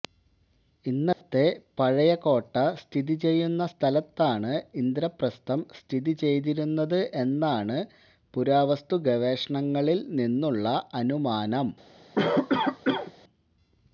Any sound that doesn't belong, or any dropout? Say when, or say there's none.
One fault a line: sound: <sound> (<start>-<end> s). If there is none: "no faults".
sound: dropout (1.1-1.2 s)
sound: cough (12.2-13.1 s)